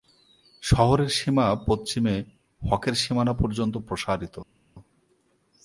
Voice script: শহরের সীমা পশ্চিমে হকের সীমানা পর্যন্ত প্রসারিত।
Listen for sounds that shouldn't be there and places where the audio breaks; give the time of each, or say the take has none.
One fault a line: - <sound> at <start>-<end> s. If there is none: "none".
none